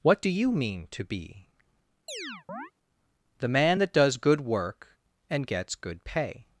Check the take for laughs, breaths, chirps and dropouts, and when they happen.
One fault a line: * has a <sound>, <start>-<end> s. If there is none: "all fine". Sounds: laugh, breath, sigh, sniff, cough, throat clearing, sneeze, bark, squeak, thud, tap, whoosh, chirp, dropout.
* has a chirp, 2.1-2.7 s